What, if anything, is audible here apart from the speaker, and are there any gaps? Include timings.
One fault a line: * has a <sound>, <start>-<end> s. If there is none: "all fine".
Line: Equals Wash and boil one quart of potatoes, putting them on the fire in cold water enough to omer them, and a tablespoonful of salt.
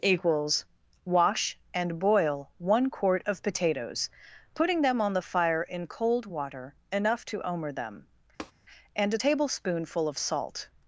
* has a tap, 8.4-8.5 s